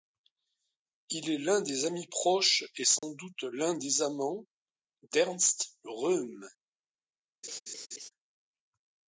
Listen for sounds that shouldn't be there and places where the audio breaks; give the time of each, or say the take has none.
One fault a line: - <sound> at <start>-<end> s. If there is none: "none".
- dropout at 3.0-3.0 s
- laugh at 7.4-8.1 s